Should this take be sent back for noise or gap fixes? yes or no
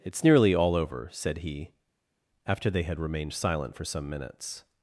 no